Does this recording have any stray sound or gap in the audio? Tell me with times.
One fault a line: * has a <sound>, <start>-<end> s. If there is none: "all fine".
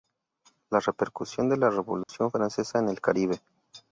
* has a dropout, 2.0-2.1 s